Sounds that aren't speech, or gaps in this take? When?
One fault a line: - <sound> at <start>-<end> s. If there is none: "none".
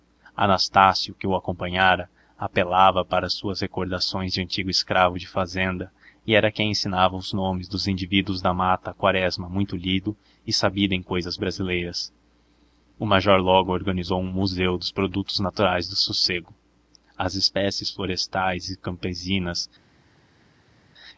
none